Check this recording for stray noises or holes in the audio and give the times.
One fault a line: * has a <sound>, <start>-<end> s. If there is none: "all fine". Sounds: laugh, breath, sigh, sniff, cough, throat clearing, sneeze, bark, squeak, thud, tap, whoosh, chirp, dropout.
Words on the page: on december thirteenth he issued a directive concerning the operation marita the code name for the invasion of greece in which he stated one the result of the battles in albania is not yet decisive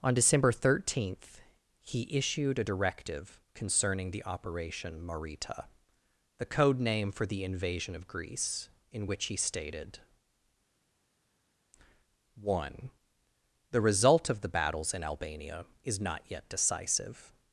all fine